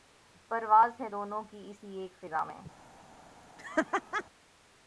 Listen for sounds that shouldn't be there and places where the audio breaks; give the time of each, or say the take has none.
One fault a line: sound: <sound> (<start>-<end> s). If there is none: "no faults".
sound: laugh (3.6-4.2 s)